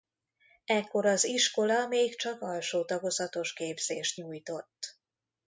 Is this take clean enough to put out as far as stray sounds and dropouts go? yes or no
yes